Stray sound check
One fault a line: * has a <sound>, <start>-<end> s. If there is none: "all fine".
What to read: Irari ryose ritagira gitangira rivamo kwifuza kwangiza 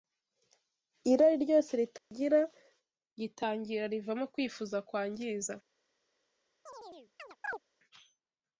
* has a dropout, 2.0-2.1 s
* has a chirp, 6.7-7.6 s